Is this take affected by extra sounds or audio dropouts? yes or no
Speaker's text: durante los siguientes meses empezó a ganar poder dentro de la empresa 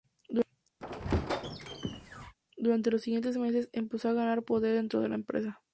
yes